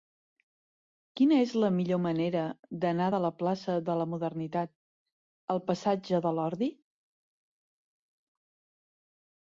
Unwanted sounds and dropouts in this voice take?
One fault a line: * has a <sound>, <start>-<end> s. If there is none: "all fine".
all fine